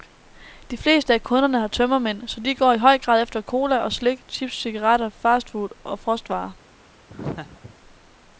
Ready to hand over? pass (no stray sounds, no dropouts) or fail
fail